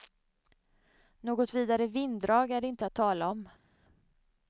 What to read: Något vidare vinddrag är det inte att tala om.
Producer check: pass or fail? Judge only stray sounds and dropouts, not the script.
pass